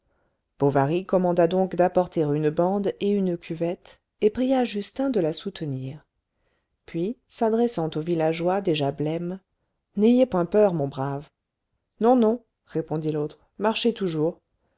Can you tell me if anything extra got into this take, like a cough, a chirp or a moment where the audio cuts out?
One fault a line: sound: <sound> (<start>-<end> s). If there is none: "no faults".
no faults